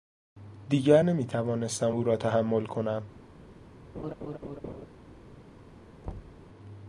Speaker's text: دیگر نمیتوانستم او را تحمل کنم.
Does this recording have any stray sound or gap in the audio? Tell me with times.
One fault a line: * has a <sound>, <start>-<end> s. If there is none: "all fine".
* has a laugh, 3.9-4.9 s
* has a thud, 6.0-6.4 s